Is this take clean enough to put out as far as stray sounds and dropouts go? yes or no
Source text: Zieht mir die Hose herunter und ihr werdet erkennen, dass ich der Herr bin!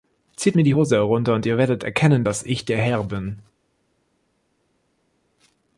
yes